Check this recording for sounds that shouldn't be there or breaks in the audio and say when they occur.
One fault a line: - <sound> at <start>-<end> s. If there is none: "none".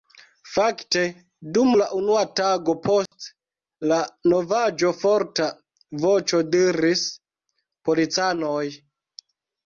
- dropout at 3.1-3.1 s